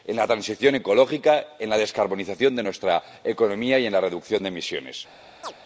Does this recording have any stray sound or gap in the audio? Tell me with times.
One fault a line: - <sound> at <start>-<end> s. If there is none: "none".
- chirp at 5.4-5.5 s